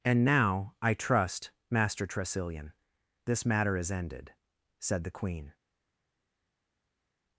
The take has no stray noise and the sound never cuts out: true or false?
true